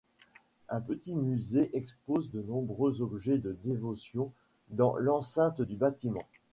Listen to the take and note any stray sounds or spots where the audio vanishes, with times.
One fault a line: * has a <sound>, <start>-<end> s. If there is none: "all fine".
all fine